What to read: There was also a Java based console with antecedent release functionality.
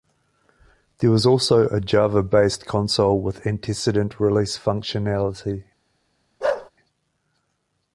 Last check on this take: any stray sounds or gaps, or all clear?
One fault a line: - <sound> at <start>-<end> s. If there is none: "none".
- bark at 6.4-6.7 s